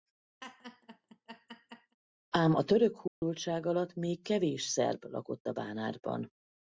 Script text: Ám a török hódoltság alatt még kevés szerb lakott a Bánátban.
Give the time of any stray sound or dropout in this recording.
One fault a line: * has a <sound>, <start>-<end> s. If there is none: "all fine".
* has a laugh, 0.4-2.0 s
* has a dropout, 3.1-3.2 s